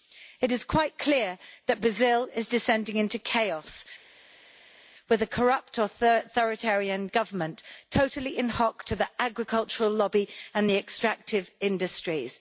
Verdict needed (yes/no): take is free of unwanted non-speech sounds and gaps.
yes